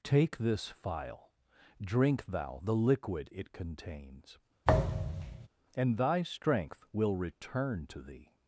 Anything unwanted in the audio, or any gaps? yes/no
yes